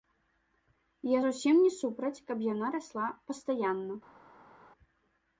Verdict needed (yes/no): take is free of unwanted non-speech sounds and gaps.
yes